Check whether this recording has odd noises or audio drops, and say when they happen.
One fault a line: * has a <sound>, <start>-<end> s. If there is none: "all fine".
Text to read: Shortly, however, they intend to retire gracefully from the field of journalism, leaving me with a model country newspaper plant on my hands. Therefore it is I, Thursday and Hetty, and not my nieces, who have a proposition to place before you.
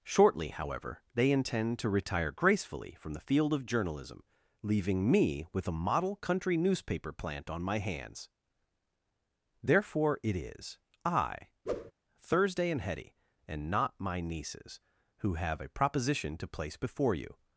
* has a whoosh, 11.7-11.9 s